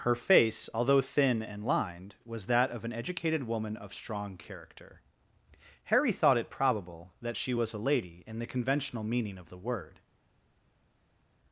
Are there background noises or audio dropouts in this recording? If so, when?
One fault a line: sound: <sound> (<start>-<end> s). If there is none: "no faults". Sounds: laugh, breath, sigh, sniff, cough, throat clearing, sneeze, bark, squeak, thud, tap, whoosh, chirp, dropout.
no faults